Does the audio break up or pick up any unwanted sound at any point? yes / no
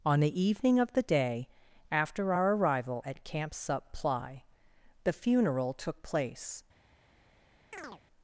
yes